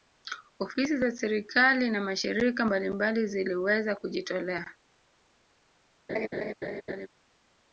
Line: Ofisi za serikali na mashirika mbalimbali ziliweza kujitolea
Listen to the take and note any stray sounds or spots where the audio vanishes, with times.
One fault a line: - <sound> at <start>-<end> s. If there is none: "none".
- laugh at 6.1-7.1 s